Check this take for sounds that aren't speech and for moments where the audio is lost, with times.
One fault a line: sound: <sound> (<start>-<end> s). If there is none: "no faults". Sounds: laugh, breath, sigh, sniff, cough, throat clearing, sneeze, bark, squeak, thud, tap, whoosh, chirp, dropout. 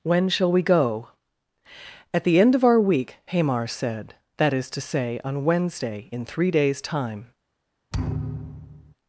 sound: thud (7.9-8.9 s)